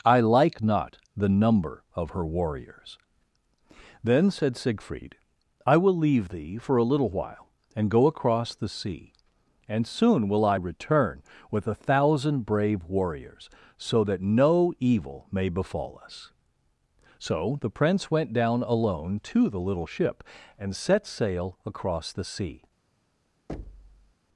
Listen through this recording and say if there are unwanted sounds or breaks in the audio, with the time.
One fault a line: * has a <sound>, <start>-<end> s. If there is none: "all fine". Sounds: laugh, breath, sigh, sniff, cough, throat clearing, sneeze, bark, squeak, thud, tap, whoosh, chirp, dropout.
* has a thud, 23.5-24.1 s